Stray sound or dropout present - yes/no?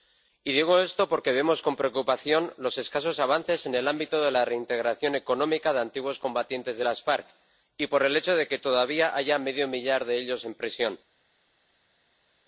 no